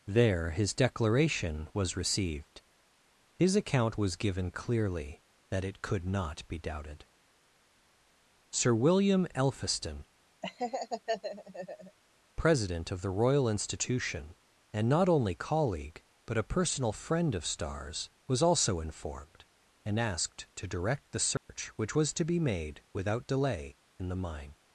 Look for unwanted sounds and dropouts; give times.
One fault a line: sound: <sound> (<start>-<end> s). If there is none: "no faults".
sound: laugh (10.4-12.0 s)
sound: dropout (21.4-21.5 s)